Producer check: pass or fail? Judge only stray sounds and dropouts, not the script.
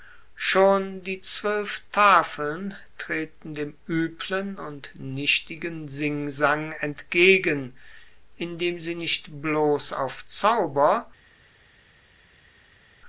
pass